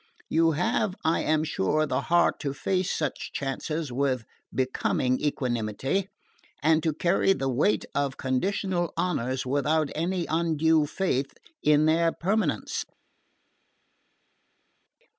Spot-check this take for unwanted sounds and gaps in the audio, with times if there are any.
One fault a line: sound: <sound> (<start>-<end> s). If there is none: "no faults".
no faults